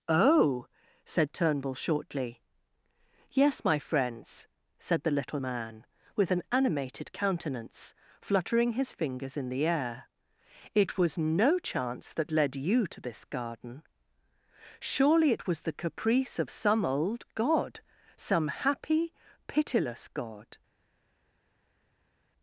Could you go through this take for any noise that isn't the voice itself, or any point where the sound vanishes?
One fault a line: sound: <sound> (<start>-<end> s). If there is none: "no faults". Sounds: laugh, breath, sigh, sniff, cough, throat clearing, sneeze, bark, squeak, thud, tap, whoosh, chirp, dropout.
no faults